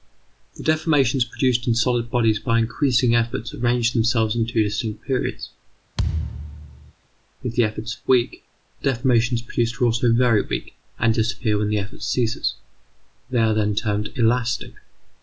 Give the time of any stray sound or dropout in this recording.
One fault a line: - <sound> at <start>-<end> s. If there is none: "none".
- thud at 6.0-6.9 s